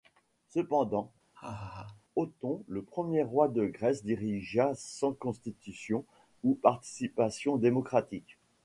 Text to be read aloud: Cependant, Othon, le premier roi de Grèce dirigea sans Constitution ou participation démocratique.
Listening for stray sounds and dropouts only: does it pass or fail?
fail